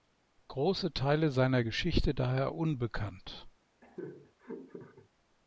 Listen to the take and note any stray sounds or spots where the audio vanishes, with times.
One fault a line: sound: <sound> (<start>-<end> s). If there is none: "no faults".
sound: laugh (3.8-5.1 s)